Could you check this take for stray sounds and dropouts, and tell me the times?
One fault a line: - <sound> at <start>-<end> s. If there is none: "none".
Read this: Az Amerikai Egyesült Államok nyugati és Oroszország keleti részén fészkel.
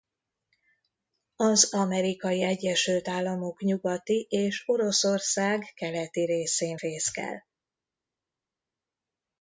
none